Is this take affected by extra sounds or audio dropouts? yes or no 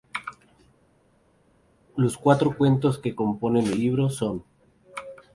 no